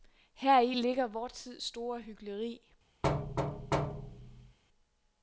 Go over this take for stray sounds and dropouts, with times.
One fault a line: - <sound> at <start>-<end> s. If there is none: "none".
- thud at 3.0-4.6 s